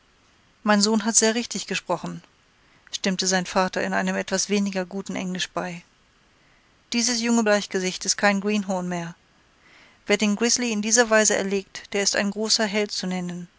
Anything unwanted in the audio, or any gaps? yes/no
no